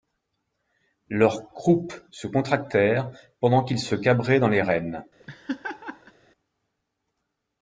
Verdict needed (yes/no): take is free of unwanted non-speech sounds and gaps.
no